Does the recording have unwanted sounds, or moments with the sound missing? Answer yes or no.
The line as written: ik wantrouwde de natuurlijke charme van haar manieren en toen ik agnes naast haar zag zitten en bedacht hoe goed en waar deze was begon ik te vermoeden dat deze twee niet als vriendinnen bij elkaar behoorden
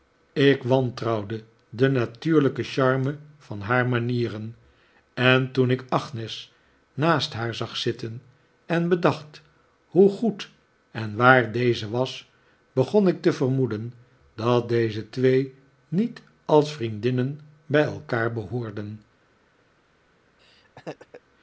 yes